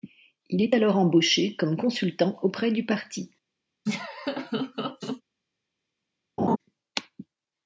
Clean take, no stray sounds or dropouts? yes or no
no